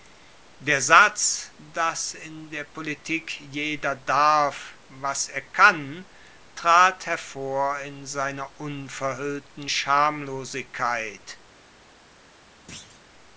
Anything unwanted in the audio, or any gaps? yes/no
yes